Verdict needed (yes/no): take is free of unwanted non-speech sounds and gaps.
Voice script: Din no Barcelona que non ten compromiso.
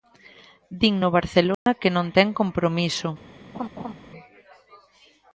no